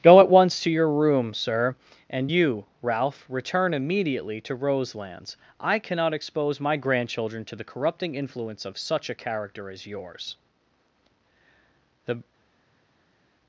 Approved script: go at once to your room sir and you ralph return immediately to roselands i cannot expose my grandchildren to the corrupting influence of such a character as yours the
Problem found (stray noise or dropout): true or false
false